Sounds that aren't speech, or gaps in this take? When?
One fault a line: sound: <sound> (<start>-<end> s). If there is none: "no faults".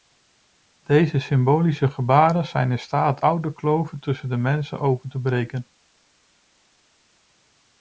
no faults